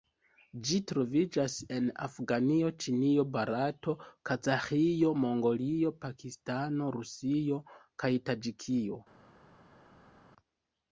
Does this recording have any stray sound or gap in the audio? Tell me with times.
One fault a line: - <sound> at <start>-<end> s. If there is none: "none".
none